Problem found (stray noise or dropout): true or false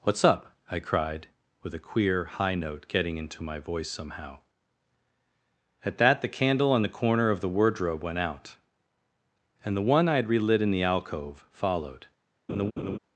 true